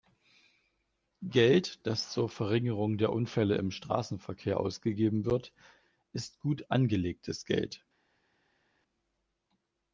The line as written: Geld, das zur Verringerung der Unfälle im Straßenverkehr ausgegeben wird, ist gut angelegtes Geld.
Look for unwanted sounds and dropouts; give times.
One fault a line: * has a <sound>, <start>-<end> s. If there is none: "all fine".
all fine